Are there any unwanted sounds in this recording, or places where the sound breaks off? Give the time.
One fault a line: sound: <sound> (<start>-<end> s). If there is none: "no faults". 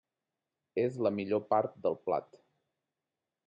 no faults